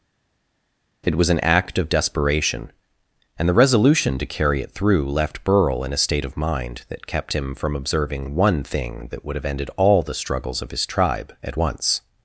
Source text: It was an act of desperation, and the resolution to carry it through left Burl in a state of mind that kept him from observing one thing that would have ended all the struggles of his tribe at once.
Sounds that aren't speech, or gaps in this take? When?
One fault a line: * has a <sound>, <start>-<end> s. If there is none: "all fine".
all fine